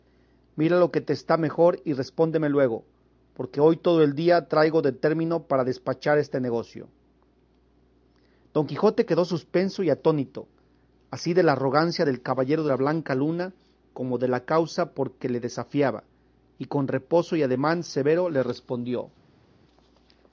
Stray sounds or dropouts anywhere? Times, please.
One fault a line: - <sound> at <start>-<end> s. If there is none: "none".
none